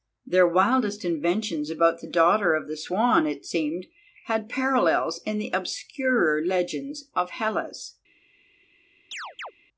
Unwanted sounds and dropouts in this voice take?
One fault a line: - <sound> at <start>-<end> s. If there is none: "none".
- chirp at 9.1-9.5 s